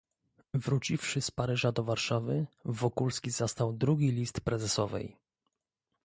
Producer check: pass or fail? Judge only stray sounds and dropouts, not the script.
pass